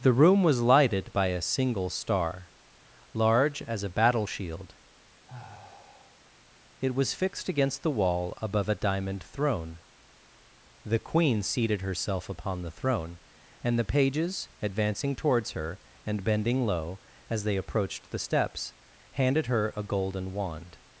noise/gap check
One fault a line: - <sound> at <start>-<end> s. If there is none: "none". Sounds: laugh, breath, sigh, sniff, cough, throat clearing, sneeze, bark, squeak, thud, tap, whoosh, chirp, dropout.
- sigh at 5.2-6.3 s